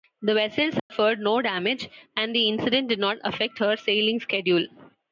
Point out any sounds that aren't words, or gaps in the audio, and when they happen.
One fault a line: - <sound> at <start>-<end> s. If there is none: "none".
- dropout at 0.8-0.9 s